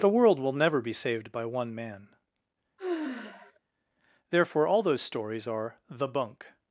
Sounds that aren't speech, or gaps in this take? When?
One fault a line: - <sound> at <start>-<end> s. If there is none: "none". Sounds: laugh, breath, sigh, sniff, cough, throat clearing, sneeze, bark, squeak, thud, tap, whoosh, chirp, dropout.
- sigh at 2.8-3.6 s